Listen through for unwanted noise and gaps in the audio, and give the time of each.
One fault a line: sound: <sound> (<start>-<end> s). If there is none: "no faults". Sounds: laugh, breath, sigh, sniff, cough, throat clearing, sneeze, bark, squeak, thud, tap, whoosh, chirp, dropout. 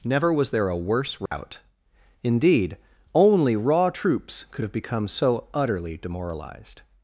sound: dropout (1.3-1.3 s)